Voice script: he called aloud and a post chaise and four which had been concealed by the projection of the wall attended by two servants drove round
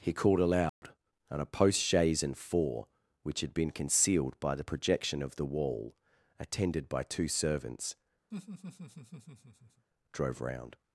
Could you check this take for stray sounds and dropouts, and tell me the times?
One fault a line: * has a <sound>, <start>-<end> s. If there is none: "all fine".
* has a dropout, 0.7-0.8 s
* has a laugh, 8.3-9.9 s